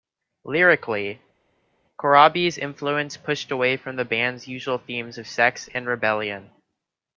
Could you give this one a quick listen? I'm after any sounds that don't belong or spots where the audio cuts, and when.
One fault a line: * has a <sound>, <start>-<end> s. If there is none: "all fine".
all fine